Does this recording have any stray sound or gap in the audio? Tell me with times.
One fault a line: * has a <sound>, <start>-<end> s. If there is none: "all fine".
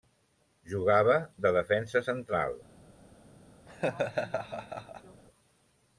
* has a laugh, 3.7-5.2 s